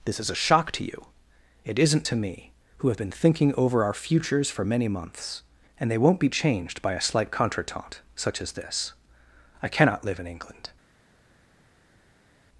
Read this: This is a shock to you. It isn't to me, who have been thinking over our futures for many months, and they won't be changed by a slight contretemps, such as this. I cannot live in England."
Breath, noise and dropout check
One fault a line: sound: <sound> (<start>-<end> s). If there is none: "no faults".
no faults